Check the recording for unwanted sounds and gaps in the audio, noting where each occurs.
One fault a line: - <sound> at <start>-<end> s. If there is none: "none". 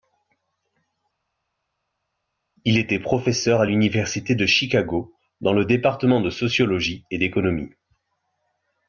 none